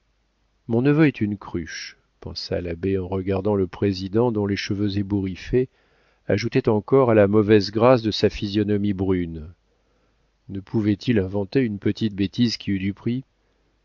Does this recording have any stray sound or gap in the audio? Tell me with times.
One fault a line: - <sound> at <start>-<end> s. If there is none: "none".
none